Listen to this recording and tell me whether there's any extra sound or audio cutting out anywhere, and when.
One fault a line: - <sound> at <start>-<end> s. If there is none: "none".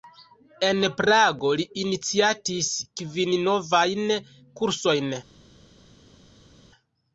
none